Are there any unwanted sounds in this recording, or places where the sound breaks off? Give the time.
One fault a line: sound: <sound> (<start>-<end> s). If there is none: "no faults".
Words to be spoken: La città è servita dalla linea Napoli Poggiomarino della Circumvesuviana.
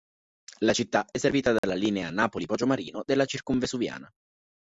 sound: dropout (1.6-1.6 s)